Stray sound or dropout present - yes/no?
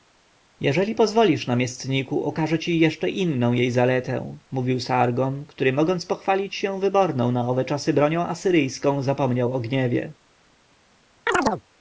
yes